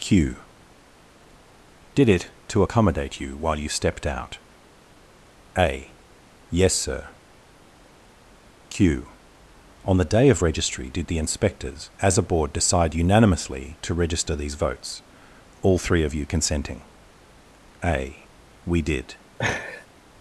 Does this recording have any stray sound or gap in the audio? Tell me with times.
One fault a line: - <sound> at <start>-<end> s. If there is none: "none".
- laugh at 19.4-19.9 s